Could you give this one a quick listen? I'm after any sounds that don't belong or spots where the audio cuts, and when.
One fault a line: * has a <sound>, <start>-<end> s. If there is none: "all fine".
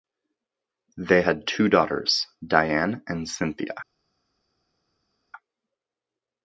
all fine